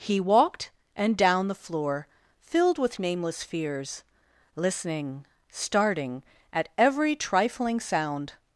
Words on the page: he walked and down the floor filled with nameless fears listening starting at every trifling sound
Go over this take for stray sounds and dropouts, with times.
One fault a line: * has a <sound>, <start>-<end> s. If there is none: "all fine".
all fine